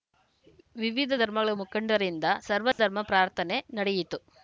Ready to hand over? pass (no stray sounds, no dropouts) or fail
fail